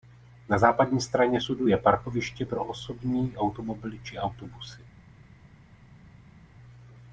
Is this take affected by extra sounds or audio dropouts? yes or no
no